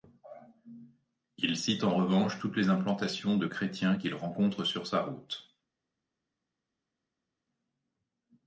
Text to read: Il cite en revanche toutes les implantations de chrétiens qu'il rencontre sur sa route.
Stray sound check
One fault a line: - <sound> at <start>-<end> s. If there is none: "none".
none